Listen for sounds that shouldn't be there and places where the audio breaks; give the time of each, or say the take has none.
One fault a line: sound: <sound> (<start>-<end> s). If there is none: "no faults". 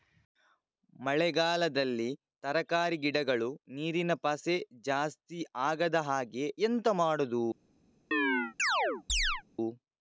sound: chirp (8.1-9.4 s)